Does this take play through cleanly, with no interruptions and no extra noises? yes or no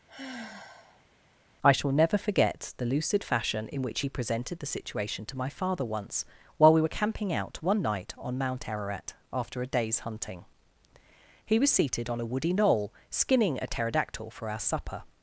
no